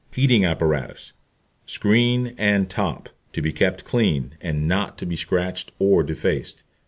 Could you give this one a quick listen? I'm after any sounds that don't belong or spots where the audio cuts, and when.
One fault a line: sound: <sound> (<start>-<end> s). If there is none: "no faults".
no faults